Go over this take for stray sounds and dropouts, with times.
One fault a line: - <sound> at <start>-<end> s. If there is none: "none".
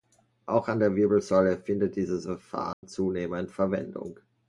- dropout at 2.7-2.8 s